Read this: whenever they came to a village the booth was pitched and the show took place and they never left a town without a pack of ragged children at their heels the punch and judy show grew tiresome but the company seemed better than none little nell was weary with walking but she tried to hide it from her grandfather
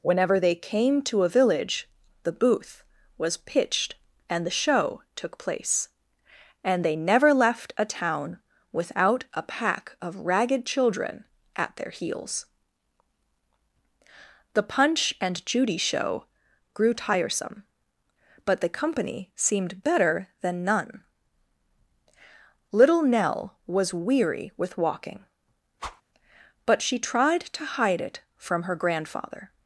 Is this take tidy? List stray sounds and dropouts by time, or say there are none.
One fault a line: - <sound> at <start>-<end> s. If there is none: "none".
- whoosh at 25.8-26.0 s